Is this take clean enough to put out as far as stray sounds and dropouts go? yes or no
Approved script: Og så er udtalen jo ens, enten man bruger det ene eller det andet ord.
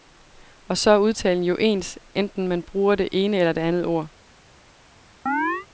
no